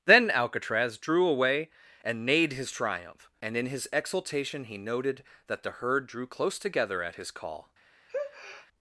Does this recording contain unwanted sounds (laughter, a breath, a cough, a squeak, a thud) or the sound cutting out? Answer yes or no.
yes